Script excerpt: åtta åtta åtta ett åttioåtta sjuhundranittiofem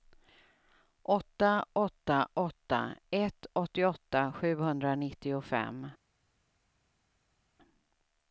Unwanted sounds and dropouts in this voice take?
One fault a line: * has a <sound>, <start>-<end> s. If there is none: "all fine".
all fine